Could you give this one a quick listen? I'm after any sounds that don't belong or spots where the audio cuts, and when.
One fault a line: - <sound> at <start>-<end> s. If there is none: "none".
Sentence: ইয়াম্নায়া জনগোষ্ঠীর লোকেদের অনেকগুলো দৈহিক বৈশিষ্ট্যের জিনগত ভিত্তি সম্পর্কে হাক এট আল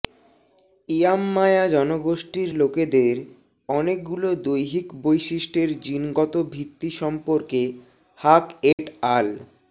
- dropout at 8.7-8.8 s